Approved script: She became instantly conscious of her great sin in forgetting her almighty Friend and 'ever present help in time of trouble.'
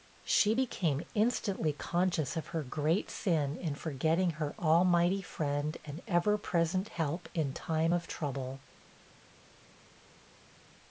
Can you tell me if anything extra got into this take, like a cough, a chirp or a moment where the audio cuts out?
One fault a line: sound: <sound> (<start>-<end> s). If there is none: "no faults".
no faults